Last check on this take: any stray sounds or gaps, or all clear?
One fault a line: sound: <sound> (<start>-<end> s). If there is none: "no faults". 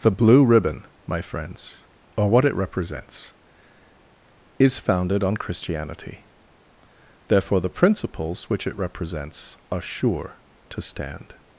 no faults